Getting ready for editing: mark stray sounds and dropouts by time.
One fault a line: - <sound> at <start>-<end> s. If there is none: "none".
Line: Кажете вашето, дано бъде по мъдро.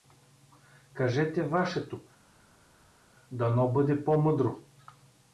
none